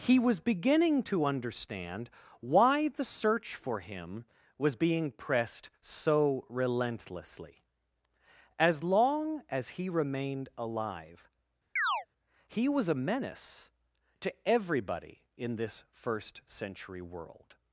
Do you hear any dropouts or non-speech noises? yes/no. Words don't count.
yes